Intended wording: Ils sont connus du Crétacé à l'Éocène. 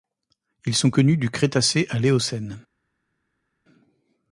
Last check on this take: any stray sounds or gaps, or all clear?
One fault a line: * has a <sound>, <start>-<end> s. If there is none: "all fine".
all fine